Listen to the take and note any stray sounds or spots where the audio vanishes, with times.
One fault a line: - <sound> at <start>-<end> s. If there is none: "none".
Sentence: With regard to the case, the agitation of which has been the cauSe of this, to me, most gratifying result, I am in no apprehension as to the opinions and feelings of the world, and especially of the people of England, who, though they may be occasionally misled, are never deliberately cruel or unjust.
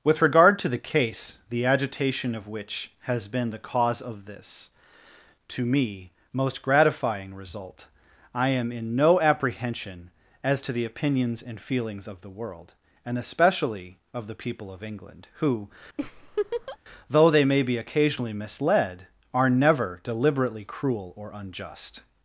- laugh at 16.0-16.8 s